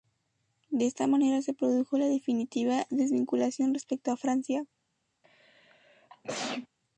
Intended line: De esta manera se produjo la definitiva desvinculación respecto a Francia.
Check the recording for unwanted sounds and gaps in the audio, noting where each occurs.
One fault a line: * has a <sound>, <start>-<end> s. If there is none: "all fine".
* has a sneeze, 5.2-6.7 s